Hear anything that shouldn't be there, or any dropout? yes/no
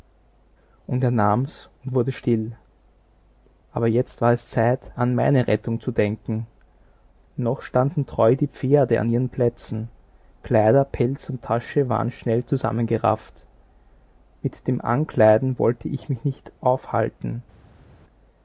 no